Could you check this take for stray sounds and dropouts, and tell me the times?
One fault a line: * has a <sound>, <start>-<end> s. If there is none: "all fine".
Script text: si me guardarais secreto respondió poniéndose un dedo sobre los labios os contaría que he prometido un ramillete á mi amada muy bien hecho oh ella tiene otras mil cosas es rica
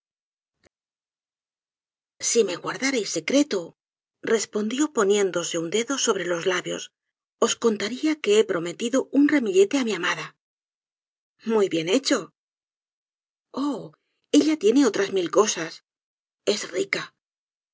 all fine